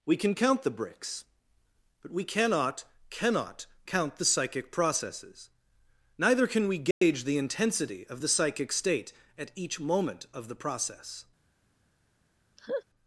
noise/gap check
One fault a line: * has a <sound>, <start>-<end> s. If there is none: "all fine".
* has a dropout, 6.9-7.0 s
* has a laugh, 12.6-12.8 s